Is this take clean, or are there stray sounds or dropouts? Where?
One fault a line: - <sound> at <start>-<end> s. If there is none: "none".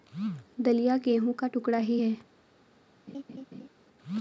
- laugh at 3.1-3.7 s